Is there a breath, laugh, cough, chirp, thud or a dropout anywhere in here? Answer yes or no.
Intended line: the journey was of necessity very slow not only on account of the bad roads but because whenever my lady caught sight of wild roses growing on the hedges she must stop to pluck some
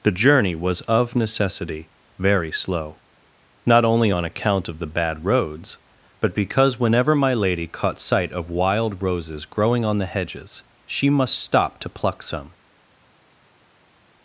no